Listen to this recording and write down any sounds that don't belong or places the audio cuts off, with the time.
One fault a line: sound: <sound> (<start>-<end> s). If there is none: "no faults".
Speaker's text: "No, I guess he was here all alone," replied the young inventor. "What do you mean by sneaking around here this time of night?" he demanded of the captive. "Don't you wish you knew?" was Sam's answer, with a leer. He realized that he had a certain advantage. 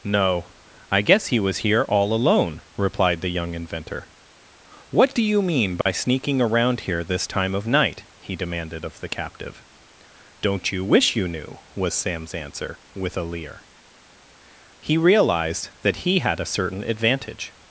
sound: dropout (5.8-5.9 s)